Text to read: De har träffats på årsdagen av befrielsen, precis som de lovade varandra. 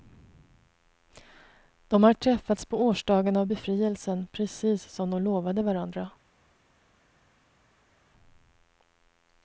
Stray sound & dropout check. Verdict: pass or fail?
pass